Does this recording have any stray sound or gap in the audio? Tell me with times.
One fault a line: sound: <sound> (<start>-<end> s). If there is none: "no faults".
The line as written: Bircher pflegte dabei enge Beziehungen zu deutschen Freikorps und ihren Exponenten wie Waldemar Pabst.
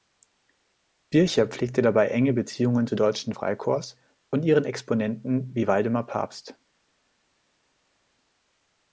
no faults